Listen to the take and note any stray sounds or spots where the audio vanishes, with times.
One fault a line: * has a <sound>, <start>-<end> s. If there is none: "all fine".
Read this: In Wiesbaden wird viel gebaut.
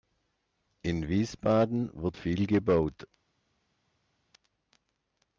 all fine